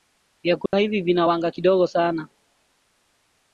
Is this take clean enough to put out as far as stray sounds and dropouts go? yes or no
no